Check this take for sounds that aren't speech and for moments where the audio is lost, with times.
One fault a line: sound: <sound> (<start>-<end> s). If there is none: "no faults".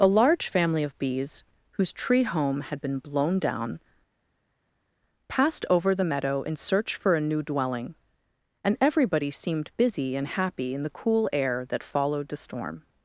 no faults